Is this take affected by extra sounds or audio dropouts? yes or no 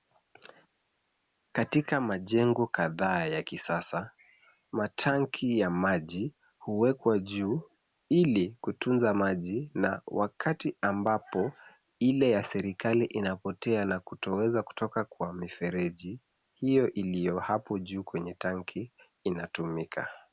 no